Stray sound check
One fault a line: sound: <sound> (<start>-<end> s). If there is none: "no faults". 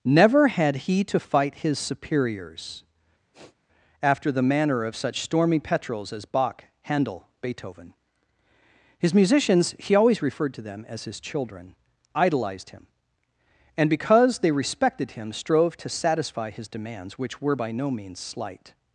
sound: sniff (3.3-3.6 s)